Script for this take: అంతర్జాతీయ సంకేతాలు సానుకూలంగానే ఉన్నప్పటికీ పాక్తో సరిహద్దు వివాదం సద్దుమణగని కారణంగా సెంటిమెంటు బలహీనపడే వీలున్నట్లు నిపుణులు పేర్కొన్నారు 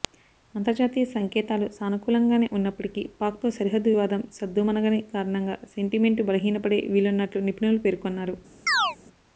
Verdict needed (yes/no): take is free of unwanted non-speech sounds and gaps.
no